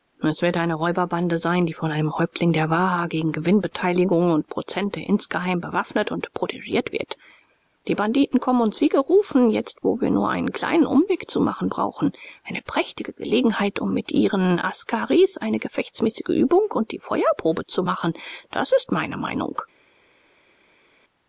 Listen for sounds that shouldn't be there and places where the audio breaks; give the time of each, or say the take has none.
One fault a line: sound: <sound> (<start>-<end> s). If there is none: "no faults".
no faults